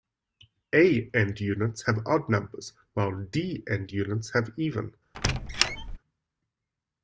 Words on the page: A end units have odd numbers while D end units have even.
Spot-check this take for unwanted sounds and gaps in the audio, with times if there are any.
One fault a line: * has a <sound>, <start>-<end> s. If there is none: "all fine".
* has a squeak, 5.1-6.0 s